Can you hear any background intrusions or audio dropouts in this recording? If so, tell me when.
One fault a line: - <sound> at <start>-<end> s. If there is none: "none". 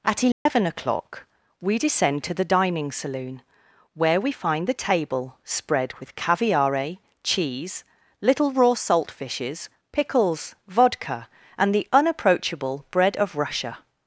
- dropout at 0.3-0.5 s